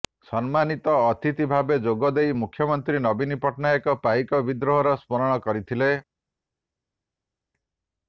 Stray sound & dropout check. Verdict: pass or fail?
pass